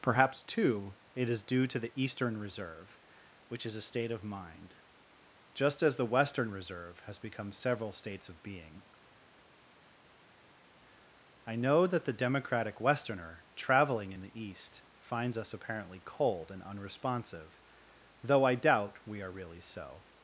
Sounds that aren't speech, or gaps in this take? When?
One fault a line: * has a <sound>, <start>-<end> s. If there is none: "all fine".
all fine